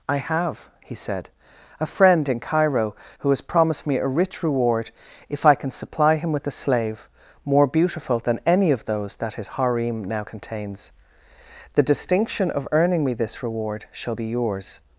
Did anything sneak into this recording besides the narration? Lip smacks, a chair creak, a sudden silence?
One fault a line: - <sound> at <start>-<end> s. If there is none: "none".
none